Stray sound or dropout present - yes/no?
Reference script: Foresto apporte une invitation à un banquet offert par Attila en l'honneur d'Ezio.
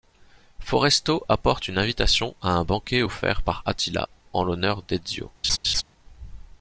yes